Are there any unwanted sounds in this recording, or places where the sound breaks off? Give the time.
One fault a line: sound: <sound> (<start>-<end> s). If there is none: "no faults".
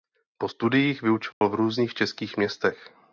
sound: dropout (1.3-1.4 s)